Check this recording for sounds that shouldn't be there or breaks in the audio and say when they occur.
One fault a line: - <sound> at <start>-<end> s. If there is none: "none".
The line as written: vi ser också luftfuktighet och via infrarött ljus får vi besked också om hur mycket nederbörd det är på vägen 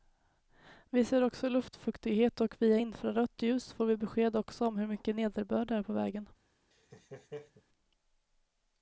- laugh at 6.7-7.6 s